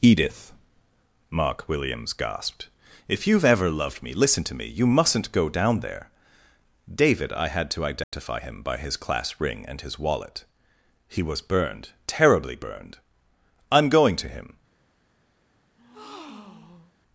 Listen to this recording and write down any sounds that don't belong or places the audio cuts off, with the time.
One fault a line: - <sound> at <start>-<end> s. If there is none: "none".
- dropout at 8.0-8.1 s
- breath at 15.8-16.9 s